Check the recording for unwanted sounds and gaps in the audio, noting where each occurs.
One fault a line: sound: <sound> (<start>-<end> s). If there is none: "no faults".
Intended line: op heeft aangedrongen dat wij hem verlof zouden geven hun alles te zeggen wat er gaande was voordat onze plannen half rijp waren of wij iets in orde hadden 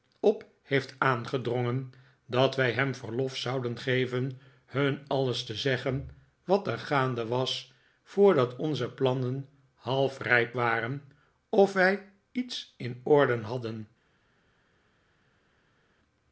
no faults